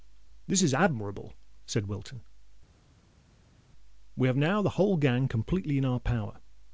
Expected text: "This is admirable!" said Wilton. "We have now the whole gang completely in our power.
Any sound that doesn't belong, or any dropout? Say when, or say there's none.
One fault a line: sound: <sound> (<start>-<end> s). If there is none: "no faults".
no faults